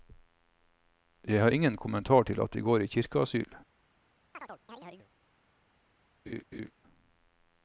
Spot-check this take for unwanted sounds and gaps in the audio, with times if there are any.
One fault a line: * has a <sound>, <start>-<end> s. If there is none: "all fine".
* has a chirp, 4.3-5.1 s
* has a laugh, 6.3-6.7 s